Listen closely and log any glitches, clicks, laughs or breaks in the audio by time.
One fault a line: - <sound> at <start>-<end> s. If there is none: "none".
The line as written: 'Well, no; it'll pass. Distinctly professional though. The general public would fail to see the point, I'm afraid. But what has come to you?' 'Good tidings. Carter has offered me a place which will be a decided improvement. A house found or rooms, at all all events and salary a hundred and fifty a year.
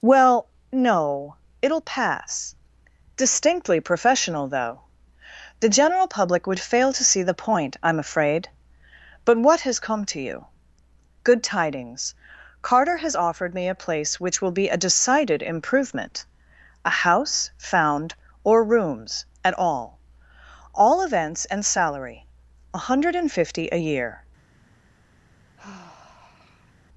- sigh at 25.6-26.7 s